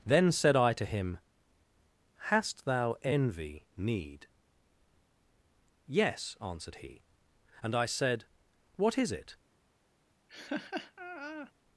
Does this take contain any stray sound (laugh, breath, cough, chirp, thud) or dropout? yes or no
yes